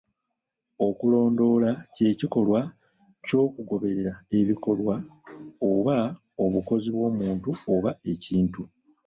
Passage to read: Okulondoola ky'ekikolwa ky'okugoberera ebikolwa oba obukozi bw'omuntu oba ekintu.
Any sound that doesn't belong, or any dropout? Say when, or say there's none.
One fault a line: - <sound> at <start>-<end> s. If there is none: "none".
none